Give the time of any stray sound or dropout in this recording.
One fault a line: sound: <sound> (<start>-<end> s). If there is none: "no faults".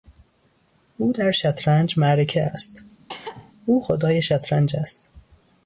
sound: cough (3.1-3.5 s)